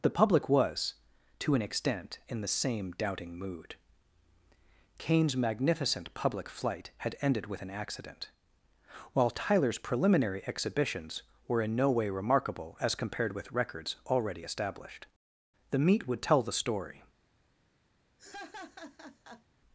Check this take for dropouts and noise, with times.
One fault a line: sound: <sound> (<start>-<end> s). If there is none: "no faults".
sound: laugh (18.2-19.5 s)